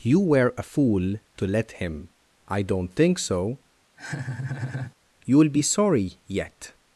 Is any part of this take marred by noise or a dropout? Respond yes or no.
yes